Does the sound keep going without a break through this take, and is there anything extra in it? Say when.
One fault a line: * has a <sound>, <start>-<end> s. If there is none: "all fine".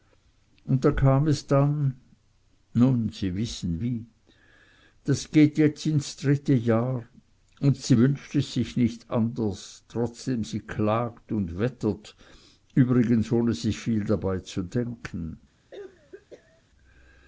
* has a cough, 15.7-16.6 s